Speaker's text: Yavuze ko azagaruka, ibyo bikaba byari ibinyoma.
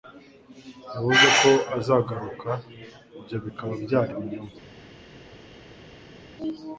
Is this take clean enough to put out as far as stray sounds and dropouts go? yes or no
yes